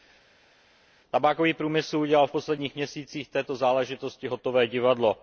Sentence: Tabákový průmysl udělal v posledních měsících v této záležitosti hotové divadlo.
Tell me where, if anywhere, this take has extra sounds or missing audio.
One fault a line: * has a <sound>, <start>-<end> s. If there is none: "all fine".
all fine